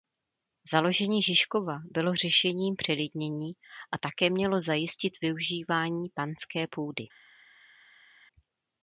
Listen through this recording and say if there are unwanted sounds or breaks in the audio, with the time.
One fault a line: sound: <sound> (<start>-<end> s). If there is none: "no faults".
no faults